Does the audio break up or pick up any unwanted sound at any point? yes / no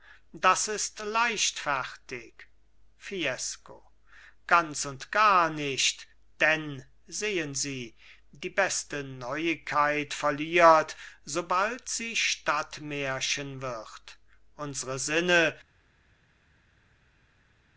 no